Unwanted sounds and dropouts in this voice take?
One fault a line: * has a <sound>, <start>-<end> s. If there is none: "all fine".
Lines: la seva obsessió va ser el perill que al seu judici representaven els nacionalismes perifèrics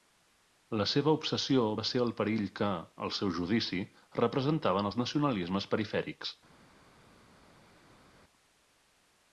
all fine